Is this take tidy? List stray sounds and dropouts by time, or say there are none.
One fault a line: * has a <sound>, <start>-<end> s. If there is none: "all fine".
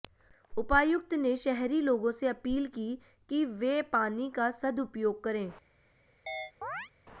* has a chirp, 6.3-6.9 s